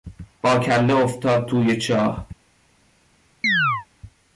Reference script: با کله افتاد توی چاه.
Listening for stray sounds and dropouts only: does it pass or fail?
fail